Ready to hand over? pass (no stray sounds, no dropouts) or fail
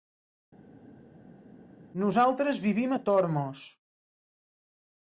pass